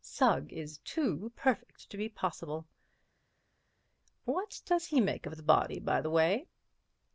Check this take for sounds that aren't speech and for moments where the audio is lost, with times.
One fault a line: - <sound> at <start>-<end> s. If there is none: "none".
none